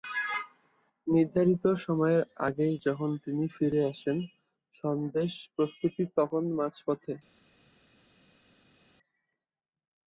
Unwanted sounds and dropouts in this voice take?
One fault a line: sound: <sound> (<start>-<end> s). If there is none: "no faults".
no faults